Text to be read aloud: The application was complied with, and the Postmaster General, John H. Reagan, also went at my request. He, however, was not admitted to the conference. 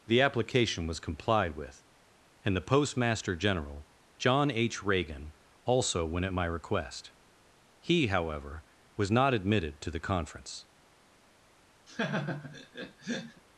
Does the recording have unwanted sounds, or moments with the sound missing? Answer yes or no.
yes